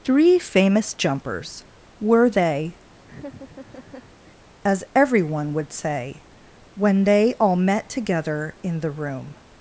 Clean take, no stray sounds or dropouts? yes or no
no